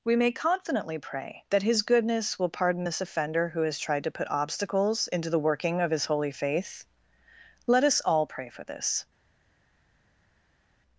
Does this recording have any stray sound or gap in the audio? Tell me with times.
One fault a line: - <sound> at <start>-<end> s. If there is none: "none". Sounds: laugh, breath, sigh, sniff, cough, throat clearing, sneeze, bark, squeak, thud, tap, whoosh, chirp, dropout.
none